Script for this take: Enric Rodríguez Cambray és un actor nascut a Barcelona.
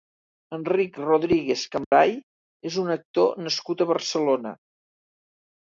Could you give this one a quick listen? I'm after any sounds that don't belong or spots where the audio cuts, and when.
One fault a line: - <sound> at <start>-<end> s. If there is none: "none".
- dropout at 1.8-1.9 s